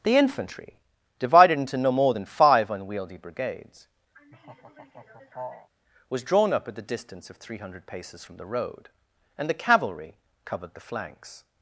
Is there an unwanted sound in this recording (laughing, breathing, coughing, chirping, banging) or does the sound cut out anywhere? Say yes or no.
yes